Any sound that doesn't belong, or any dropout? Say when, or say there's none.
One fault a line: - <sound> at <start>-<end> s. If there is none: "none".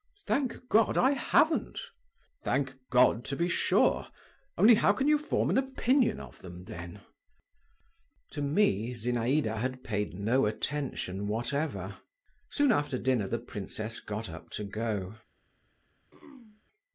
- throat clearing at 16.1-16.6 s